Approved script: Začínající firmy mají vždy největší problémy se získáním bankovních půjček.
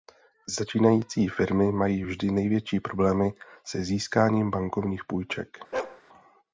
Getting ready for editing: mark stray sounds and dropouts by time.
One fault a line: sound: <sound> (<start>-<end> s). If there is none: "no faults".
sound: bark (5.7-6.0 s)